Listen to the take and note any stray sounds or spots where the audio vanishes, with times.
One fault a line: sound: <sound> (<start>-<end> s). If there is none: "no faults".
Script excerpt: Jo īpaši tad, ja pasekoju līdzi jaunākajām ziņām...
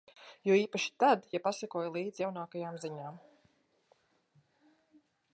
no faults